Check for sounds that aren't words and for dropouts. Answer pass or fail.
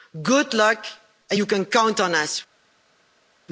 pass